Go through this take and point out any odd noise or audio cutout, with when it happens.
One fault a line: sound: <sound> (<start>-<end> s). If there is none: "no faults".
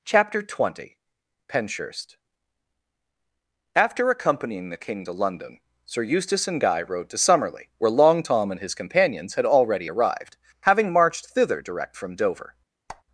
sound: squeak (12.9-13.0 s)